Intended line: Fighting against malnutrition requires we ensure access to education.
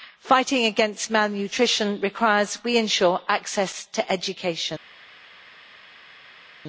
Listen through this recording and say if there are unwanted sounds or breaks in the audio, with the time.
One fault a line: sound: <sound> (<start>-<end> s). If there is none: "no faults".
no faults